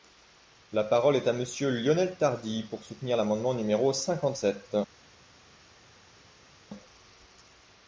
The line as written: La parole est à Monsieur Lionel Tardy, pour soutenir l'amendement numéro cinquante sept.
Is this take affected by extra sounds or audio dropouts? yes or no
no